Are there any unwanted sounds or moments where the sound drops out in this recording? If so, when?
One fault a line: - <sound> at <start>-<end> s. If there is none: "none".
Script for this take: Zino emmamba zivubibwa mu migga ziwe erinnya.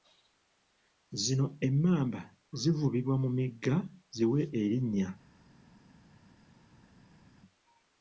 none